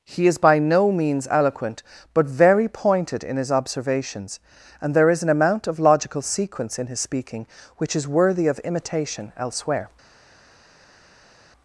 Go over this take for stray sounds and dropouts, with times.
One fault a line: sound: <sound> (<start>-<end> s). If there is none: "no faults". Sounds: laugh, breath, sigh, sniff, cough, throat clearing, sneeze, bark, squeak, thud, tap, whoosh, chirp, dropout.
no faults